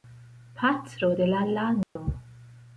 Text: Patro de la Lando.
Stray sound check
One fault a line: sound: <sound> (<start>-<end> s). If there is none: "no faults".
sound: dropout (1.8-2.0 s)